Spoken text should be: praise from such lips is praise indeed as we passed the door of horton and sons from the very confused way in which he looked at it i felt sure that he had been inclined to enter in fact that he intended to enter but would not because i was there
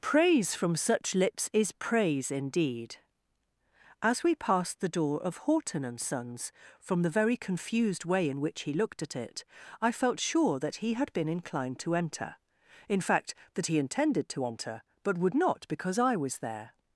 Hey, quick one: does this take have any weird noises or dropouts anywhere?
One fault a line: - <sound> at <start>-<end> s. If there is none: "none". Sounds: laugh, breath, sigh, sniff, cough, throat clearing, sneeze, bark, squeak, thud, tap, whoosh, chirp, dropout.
none